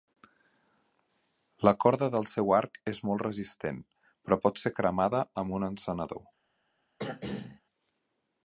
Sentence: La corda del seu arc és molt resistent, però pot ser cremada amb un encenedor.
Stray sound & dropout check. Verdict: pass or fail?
fail